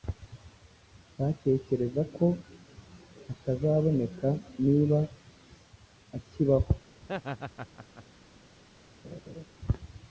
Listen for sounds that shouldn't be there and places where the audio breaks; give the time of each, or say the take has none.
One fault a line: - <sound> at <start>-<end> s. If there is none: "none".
- laugh at 7.0-8.0 s
- laugh at 9.0-9.4 s